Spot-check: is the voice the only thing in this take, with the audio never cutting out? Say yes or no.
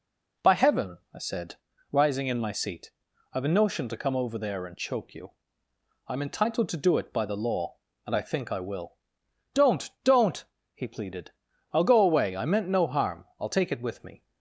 yes